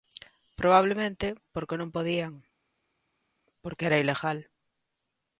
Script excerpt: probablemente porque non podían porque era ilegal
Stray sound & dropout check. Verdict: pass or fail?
pass